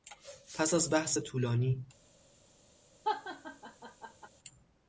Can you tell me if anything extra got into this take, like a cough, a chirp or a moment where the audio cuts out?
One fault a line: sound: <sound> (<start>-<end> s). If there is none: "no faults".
sound: laugh (3.0-4.3 s)